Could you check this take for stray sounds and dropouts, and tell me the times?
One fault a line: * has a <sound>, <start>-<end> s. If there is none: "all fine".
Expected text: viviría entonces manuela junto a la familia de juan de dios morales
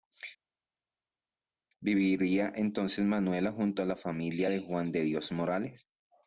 all fine